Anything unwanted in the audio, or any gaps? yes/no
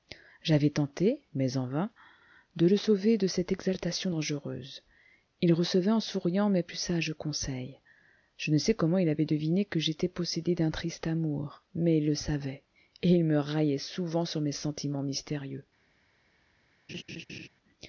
yes